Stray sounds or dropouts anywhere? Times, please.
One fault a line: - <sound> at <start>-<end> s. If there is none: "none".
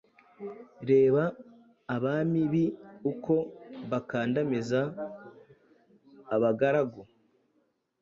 none